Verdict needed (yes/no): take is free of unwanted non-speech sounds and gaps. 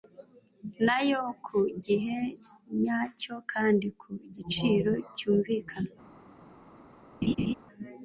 no